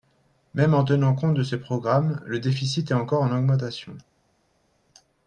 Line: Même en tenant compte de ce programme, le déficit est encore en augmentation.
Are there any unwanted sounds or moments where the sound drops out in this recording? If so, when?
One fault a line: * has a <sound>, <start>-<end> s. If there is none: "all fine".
all fine